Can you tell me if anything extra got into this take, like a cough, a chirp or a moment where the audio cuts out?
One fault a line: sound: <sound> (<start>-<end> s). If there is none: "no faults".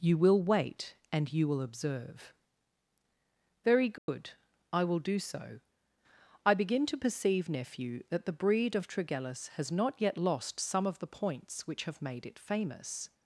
sound: dropout (4.0-4.1 s)